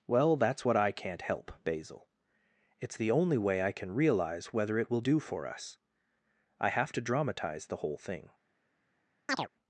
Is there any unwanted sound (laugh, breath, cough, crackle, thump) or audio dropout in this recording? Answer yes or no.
yes